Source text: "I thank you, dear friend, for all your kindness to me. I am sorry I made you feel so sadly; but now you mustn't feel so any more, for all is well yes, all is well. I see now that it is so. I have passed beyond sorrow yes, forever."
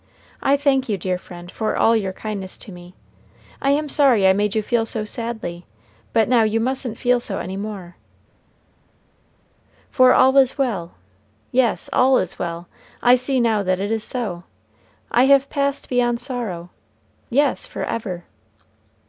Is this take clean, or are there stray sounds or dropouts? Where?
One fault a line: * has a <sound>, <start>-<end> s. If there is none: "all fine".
all fine